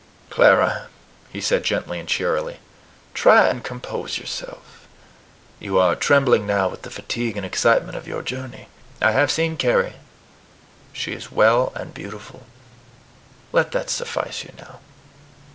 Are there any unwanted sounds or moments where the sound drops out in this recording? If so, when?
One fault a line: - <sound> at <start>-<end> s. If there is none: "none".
none